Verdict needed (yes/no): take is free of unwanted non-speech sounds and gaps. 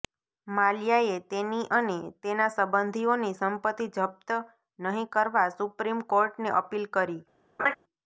no